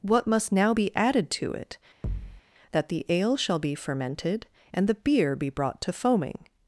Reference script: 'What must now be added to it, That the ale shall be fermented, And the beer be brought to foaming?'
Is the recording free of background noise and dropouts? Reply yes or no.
no